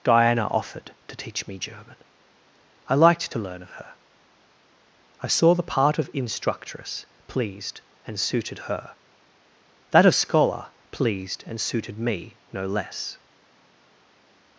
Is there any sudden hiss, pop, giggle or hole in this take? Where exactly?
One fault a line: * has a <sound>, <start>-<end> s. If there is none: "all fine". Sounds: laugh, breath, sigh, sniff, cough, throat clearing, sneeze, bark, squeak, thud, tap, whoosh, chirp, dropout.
all fine